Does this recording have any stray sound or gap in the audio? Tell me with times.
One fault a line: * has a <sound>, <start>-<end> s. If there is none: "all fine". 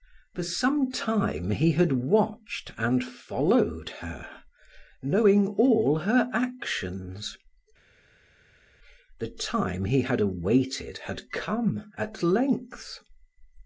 all fine